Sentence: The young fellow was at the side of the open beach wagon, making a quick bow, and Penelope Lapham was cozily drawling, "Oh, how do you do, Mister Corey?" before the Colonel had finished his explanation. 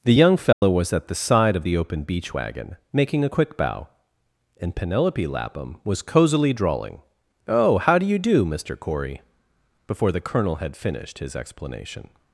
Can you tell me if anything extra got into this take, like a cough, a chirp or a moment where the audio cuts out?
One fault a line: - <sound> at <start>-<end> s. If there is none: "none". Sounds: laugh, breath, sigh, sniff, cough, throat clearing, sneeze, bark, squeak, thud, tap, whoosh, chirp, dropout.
- dropout at 0.5-0.6 s